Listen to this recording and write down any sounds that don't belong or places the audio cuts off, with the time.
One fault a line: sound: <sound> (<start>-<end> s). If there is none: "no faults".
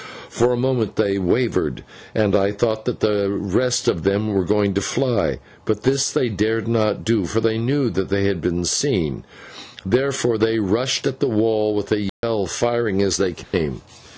sound: dropout (12.1-12.2 s)
sound: dropout (13.4-13.5 s)